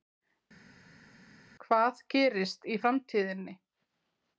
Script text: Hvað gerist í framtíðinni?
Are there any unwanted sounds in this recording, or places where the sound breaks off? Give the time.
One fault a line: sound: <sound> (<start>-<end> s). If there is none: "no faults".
no faults